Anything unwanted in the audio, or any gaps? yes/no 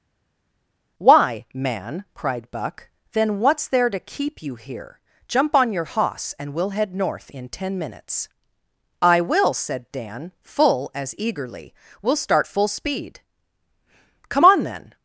no